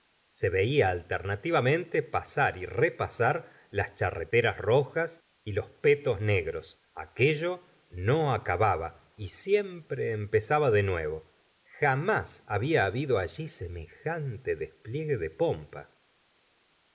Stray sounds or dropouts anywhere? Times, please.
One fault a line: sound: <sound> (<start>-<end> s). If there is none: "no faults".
no faults